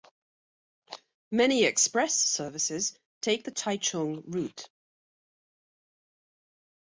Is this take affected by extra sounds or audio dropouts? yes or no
no